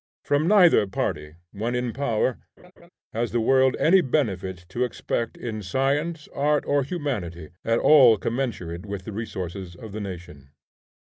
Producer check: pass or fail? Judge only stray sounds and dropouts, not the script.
fail